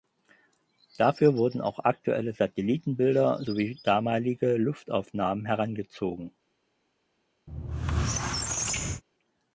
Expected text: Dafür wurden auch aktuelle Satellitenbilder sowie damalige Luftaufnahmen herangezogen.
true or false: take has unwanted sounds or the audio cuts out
true